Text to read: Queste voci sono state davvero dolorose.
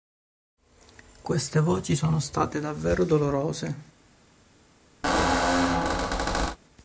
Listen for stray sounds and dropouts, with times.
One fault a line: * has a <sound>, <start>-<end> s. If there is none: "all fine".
* has a squeak, 5.0-6.6 s